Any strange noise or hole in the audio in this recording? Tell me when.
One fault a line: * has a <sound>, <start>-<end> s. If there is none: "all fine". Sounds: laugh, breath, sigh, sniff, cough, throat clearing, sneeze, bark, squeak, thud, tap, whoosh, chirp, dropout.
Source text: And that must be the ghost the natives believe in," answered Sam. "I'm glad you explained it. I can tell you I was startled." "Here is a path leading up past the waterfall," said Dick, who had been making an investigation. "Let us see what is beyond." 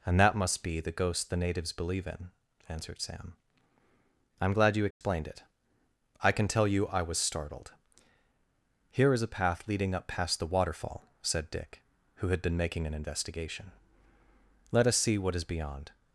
* has a dropout, 4.9-5.0 s